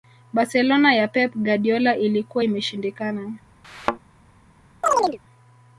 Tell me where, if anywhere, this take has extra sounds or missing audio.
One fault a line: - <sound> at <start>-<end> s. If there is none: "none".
- thud at 3.6-4.0 s
- chirp at 4.8-5.2 s